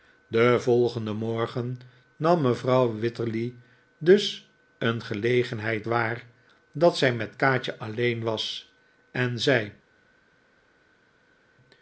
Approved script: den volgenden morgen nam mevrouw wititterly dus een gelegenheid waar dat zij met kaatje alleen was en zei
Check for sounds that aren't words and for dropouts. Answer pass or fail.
pass